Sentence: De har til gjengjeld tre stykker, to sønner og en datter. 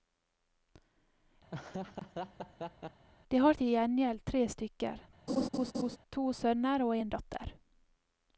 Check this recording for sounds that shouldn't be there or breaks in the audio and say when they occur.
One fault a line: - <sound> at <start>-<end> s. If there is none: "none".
- laugh at 1.5-3.1 s
- laugh at 5.3-6.0 s